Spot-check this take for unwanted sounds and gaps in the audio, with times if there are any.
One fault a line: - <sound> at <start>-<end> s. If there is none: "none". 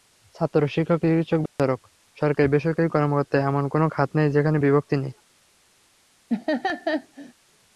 - dropout at 1.5-1.6 s
- laugh at 6.3-7.3 s